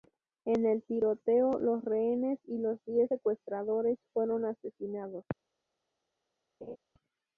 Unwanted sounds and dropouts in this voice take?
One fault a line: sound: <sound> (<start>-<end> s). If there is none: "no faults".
sound: laugh (6.6-6.8 s)